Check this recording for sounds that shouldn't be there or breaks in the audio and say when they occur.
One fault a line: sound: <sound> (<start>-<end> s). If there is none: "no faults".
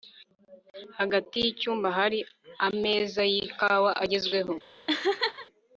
sound: laugh (4.9-5.5 s)